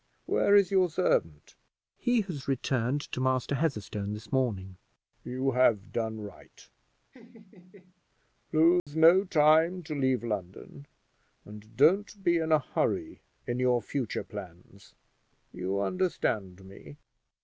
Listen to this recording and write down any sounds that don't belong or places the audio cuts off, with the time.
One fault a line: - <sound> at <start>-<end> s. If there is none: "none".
- laugh at 7.1-8.0 s
- dropout at 8.8-8.9 s